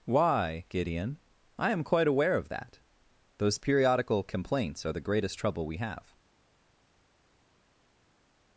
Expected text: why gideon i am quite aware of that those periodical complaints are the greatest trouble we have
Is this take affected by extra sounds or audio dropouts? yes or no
no